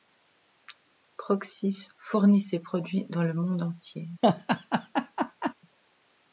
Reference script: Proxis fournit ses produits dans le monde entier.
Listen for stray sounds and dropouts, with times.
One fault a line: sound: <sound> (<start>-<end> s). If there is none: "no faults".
sound: laugh (4.2-5.5 s)